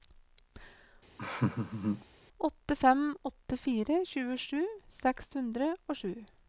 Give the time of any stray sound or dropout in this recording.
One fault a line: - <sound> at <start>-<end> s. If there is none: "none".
- laugh at 1.2-2.1 s